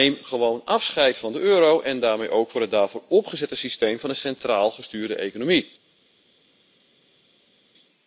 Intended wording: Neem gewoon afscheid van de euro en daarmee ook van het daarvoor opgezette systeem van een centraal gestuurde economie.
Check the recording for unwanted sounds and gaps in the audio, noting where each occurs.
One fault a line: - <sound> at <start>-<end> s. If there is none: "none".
none